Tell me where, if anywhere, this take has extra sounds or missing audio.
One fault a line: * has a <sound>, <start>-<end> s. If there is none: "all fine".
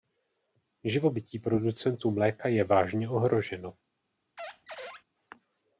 * has a squeak, 4.4-5.0 s